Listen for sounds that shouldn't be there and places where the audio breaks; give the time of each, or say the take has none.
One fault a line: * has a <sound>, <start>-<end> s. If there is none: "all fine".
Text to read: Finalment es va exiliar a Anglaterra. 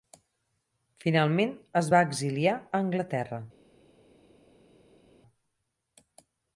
all fine